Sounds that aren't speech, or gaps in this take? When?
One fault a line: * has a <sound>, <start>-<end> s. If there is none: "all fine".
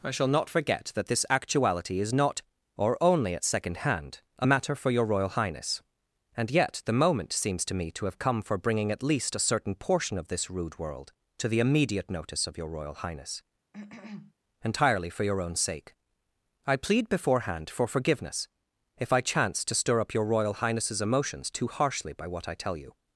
* has a cough, 13.7-14.3 s